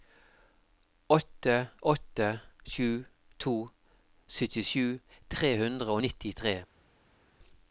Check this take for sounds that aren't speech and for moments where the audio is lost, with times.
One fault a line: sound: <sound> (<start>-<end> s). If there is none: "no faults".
no faults